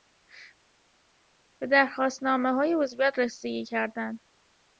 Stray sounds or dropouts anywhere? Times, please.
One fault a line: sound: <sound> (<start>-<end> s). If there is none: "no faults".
no faults